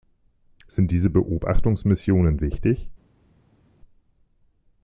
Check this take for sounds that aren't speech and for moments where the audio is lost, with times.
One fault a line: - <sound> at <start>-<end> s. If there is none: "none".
none